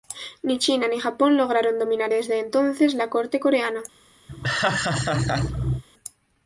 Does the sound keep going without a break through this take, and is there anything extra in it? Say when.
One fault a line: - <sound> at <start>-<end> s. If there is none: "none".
- laugh at 4.3-5.8 s